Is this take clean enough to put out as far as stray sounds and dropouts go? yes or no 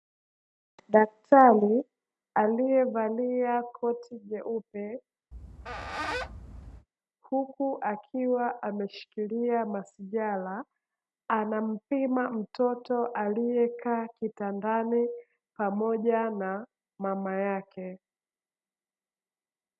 no